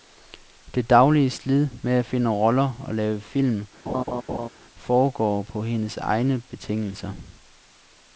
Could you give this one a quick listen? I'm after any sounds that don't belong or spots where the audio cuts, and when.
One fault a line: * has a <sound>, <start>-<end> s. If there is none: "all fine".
* has a laugh, 3.9-4.5 s